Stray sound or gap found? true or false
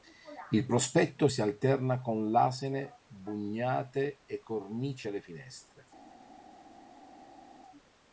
false